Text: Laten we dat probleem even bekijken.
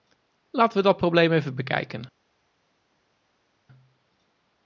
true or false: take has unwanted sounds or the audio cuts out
false